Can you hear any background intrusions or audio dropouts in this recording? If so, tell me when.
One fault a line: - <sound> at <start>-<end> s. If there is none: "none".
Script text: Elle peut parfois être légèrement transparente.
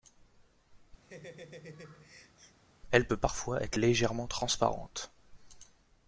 - laugh at 1.0-2.6 s